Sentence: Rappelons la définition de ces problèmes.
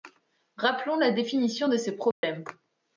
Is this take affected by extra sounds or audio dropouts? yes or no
yes